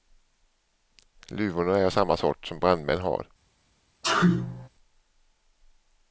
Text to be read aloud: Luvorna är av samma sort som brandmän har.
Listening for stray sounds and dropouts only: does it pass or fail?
fail